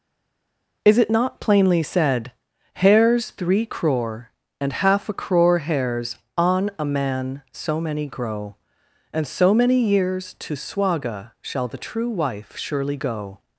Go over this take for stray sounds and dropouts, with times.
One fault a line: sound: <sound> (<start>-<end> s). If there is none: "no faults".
no faults